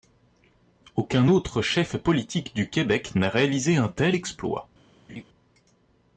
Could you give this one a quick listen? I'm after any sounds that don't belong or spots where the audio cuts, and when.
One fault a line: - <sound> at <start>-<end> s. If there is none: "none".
- laugh at 5.1-5.2 s